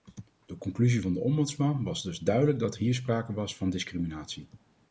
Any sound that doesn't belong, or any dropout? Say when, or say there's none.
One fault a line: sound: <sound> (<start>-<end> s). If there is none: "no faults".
no faults